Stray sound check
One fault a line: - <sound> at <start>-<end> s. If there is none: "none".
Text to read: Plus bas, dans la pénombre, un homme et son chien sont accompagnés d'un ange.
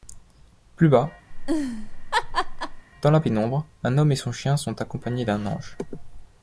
- laugh at 1.3-2.8 s